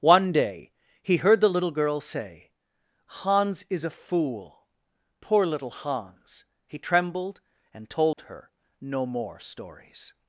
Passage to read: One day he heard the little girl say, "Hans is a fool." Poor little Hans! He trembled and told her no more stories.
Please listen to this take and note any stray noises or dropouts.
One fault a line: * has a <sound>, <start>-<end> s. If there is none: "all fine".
* has a dropout, 8.1-8.2 s